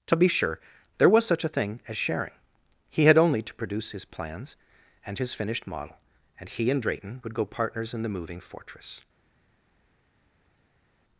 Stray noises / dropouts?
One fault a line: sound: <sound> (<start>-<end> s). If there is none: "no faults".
no faults